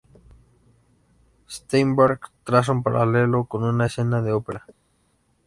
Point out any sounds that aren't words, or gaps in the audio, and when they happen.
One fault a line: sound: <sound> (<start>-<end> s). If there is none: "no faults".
no faults